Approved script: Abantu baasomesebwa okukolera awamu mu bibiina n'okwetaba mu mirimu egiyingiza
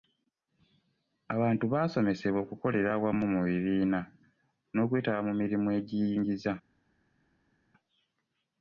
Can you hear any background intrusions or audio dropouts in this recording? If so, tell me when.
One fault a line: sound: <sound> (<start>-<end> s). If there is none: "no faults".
no faults